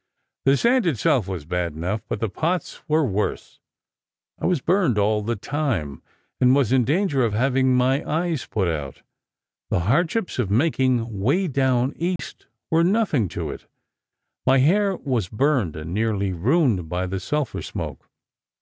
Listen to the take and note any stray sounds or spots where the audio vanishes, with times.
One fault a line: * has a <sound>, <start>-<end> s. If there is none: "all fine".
* has a dropout, 12.2-12.2 s